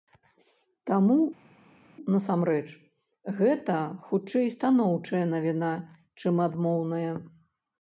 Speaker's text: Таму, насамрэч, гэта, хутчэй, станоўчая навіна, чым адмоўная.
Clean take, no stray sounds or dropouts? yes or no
yes